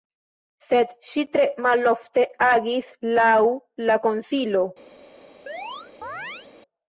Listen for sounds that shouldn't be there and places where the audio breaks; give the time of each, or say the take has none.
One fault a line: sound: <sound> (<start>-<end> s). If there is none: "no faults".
sound: chirp (5.5-6.5 s)